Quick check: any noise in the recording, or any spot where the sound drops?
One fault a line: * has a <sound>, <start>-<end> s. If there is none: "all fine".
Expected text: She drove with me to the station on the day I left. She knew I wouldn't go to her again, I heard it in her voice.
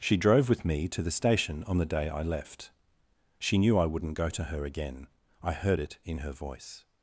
all fine